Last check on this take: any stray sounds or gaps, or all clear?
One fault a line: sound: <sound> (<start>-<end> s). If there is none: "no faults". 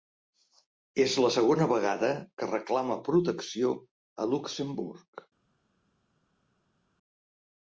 no faults